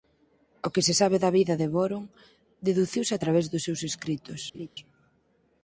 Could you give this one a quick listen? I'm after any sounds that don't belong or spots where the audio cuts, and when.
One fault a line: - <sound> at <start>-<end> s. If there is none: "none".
- laugh at 4.5-4.7 s